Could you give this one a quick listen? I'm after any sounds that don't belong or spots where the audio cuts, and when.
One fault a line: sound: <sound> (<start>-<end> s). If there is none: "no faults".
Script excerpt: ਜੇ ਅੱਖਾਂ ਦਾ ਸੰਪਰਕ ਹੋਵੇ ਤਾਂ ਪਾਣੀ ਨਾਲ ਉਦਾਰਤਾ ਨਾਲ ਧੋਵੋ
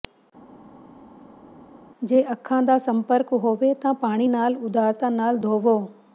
no faults